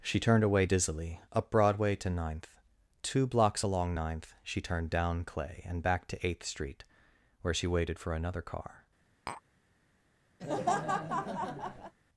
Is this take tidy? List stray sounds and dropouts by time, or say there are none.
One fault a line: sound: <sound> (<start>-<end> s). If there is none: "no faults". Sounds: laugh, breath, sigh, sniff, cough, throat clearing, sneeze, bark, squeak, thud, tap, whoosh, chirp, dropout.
sound: tap (9.3-9.4 s)
sound: laugh (10.4-11.9 s)